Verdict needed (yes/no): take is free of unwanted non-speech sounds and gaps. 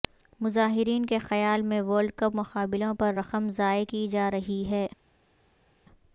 yes